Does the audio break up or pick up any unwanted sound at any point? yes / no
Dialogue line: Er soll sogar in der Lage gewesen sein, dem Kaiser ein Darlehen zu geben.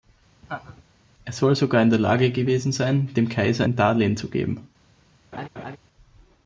yes